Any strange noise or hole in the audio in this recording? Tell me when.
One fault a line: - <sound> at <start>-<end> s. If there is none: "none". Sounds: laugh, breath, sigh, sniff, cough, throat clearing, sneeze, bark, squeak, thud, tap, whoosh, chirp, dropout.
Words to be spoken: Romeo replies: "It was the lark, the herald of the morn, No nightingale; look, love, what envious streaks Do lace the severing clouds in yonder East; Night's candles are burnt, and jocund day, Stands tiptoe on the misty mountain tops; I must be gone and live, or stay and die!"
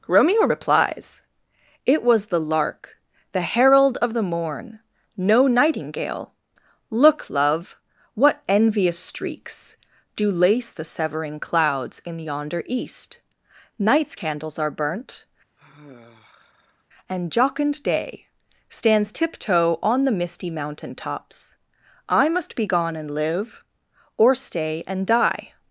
- sigh at 15.6-16.8 s